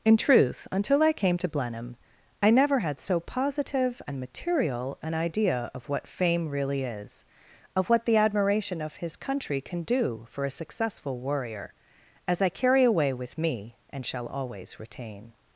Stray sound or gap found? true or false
false